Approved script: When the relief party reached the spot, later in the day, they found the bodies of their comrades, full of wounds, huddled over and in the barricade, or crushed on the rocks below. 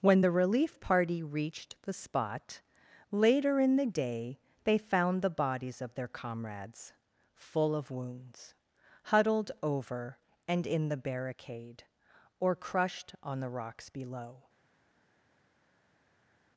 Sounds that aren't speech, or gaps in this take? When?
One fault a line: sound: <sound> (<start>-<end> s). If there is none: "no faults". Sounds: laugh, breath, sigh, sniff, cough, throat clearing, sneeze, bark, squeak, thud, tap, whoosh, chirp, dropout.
no faults